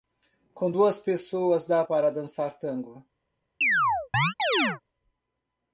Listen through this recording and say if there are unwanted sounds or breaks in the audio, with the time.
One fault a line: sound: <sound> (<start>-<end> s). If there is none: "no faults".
sound: chirp (3.6-4.8 s)